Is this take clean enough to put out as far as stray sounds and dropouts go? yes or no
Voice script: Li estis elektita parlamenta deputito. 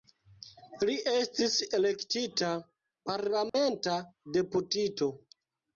no